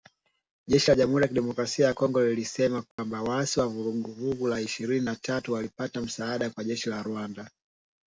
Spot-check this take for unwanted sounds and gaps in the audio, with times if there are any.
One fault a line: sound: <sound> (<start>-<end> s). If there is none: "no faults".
sound: dropout (2.9-3.0 s)